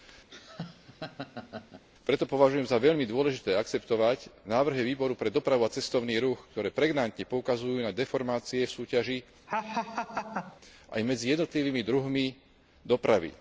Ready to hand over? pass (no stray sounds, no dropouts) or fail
fail